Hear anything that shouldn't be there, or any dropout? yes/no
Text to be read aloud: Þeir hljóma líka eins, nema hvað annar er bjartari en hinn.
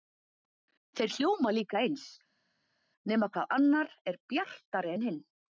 no